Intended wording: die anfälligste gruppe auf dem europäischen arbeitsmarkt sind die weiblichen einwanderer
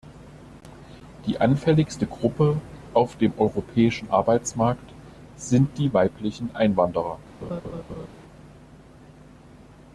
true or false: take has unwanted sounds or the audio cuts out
true